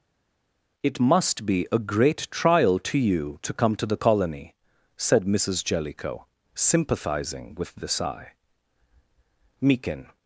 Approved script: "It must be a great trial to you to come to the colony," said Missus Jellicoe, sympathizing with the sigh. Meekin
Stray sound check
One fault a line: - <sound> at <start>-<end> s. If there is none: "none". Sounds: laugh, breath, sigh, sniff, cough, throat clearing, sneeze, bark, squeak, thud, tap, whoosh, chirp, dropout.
none